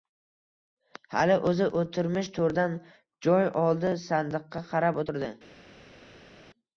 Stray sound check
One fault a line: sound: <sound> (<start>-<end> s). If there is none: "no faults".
no faults